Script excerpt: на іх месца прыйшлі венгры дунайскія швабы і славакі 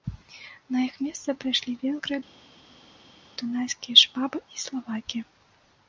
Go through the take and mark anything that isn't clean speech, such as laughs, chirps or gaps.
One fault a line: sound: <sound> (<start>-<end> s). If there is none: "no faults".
no faults